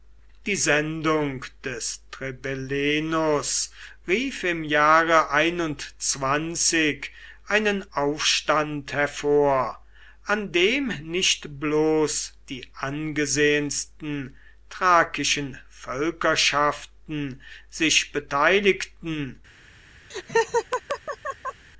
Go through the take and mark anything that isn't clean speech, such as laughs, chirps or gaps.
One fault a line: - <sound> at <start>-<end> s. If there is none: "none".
- laugh at 20.1-21.7 s